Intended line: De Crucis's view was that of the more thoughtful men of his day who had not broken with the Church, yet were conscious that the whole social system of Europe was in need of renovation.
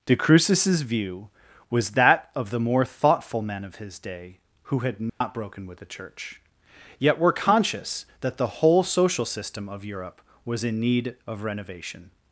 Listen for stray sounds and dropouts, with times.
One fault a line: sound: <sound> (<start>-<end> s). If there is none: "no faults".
sound: dropout (5.1-5.2 s)